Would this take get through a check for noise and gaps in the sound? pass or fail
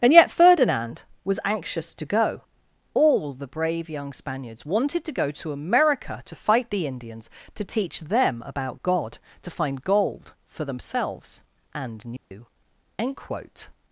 fail